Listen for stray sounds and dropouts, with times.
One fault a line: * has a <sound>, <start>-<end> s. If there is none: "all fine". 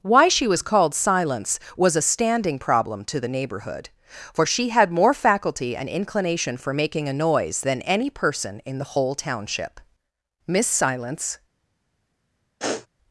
* has a sniff, 12.6-12.9 s